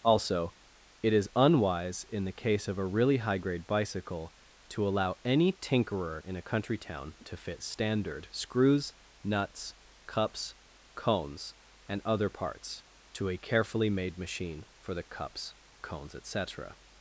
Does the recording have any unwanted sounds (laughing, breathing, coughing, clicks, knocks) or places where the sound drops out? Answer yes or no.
no